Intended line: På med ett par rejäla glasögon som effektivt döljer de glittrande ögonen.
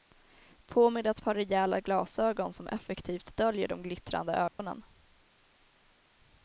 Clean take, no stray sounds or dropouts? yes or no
no